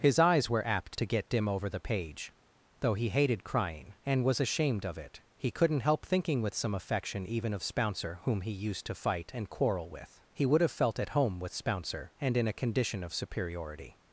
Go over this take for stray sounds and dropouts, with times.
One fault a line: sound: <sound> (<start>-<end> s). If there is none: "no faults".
no faults